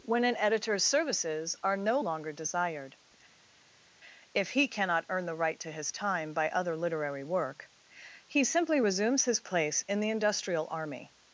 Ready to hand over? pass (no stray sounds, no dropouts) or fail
pass